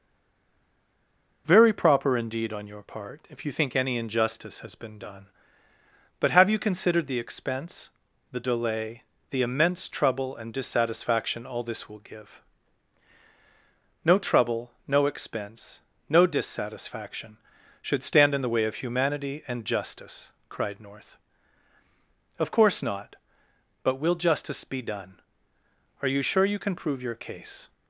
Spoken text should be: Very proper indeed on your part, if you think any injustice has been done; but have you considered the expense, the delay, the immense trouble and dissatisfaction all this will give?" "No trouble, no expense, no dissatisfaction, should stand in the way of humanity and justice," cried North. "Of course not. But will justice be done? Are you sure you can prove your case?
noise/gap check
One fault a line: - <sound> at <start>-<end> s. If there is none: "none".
none